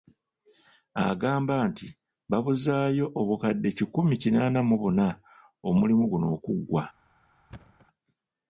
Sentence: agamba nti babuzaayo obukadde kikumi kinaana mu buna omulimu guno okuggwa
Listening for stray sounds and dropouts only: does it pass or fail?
fail